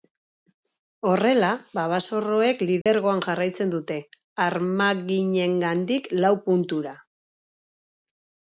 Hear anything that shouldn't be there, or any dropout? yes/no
yes